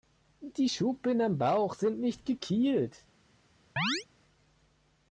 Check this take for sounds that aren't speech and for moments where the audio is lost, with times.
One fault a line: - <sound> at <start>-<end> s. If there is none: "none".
- chirp at 3.8-4.1 s